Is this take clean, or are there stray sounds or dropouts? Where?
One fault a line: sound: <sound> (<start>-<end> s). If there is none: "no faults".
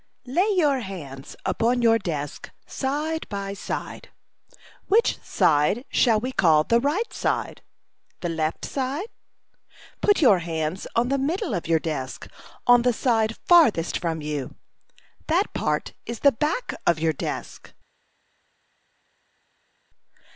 no faults